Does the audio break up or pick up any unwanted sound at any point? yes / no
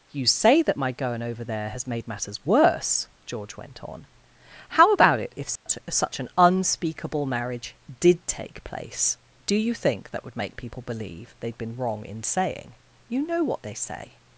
yes